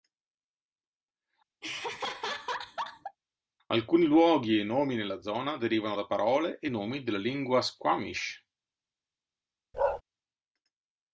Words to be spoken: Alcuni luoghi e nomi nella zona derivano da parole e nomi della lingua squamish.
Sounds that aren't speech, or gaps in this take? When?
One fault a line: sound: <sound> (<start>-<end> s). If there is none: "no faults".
sound: laugh (1.6-3.2 s)
sound: bark (9.7-10.0 s)